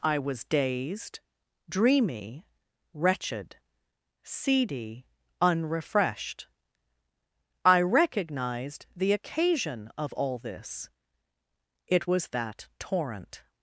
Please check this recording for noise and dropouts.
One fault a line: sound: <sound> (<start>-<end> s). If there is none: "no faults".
no faults